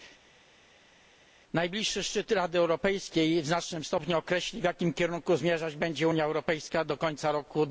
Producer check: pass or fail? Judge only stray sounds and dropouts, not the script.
pass